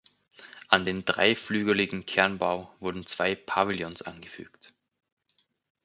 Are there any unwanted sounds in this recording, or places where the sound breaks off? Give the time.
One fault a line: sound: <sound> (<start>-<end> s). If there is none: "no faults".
no faults